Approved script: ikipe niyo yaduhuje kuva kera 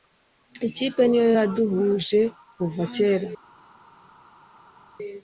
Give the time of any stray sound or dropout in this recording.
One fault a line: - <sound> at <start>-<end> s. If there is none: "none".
none